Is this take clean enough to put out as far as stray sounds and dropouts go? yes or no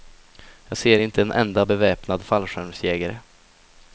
yes